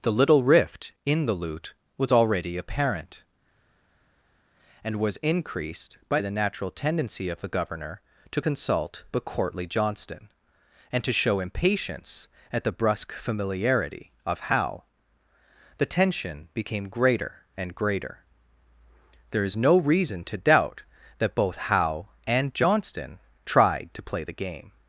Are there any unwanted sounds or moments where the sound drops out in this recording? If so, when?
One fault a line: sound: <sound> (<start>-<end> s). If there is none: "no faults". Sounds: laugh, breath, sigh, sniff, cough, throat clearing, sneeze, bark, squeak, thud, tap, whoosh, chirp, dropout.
no faults